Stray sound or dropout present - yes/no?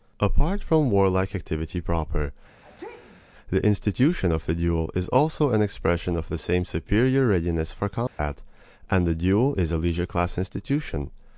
yes